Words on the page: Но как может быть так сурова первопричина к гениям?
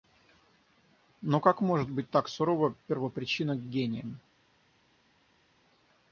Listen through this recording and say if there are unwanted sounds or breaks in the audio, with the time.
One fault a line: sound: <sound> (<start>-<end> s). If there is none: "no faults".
no faults